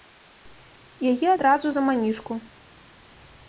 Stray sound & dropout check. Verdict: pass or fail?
pass